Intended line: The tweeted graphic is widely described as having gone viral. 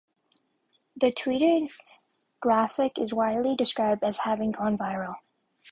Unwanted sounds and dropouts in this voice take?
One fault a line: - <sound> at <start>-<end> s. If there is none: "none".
none